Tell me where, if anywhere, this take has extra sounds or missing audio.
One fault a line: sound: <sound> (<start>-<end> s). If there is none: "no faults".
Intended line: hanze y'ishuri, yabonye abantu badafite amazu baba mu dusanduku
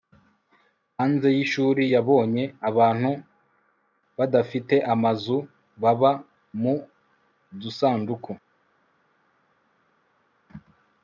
no faults